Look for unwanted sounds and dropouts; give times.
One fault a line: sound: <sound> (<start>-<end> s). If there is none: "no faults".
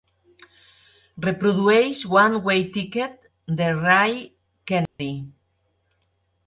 sound: dropout (4.9-5.0 s)